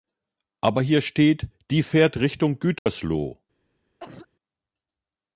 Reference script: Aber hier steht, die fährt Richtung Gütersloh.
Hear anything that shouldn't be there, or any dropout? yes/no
yes